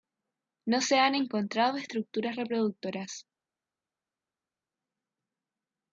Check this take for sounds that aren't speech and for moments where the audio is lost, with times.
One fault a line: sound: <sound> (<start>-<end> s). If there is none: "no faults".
no faults